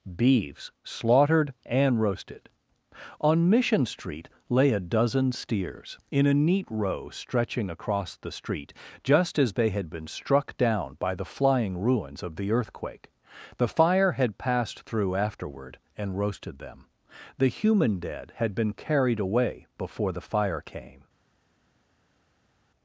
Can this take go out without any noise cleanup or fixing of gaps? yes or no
yes